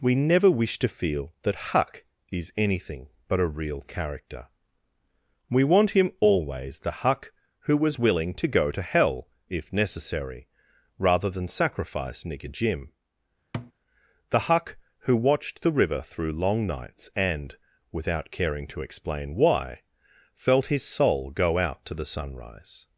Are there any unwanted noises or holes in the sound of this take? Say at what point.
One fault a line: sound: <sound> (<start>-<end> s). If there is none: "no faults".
sound: thud (13.5-13.7 s)